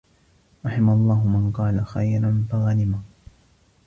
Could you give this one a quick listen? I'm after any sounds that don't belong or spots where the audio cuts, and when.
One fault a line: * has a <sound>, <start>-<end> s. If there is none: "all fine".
all fine